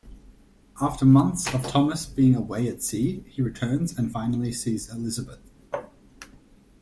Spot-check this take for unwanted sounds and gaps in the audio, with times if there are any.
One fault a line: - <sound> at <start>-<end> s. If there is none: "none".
none